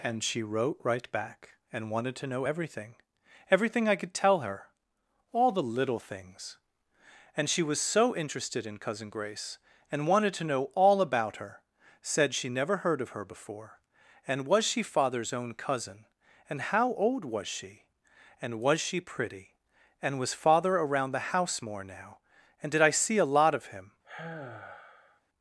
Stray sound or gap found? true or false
true